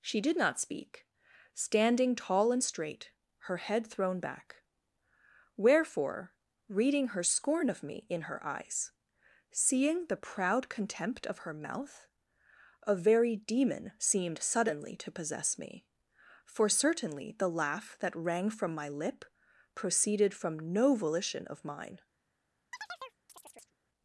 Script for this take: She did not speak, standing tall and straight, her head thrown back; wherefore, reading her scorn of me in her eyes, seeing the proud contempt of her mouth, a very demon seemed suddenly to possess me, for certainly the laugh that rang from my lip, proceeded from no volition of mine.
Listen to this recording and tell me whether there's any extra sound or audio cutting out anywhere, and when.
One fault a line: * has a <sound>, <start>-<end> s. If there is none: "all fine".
* has a chirp, 22.7-23.8 s